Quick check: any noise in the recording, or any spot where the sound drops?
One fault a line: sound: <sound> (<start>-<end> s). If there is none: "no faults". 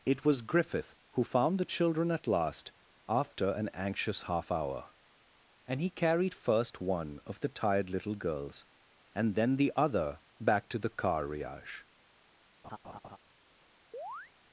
sound: laugh (12.6-13.2 s)
sound: chirp (13.9-14.3 s)